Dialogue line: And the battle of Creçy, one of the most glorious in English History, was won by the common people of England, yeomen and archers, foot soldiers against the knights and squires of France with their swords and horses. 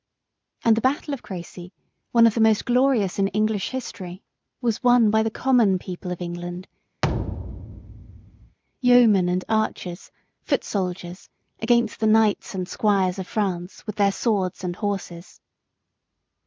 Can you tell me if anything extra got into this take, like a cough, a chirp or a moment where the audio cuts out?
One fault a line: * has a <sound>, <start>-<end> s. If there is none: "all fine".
* has a thud, 7.0-8.6 s